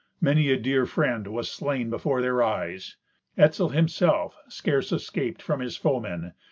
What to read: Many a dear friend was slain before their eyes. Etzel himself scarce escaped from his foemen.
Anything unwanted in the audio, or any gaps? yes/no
no